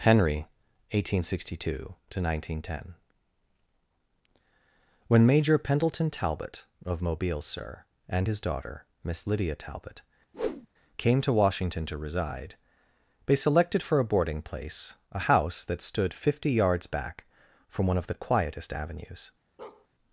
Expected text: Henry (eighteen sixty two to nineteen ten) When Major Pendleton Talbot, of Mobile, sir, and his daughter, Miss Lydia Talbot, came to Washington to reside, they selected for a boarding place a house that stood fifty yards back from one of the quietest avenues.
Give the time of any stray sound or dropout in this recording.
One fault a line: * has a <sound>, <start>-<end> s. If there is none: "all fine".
* has a whoosh, 10.3-10.7 s
* has a bark, 19.6-19.9 s